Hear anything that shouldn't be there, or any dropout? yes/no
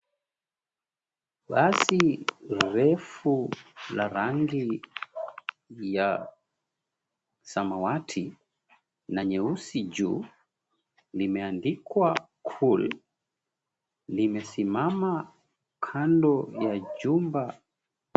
no